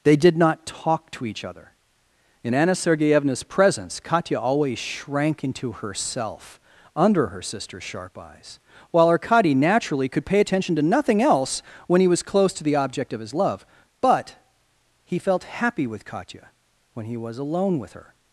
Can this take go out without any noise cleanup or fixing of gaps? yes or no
yes